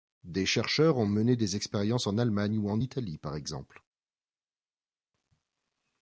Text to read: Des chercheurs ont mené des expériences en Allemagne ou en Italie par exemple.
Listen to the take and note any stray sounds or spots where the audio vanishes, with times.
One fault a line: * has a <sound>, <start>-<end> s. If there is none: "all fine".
all fine